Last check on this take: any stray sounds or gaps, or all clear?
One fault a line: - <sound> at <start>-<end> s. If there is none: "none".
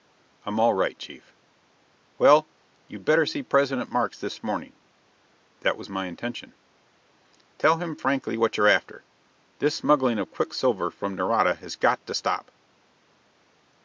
none